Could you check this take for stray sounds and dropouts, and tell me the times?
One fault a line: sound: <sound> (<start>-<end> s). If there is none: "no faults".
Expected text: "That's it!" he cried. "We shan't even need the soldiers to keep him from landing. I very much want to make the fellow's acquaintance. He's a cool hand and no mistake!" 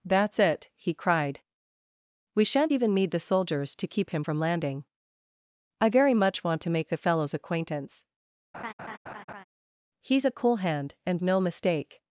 sound: laugh (8.5-9.4 s)